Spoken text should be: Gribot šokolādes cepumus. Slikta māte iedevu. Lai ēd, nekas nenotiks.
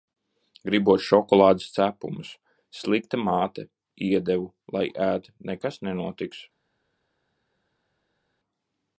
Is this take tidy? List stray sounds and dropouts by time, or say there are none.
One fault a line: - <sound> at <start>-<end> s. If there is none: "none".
none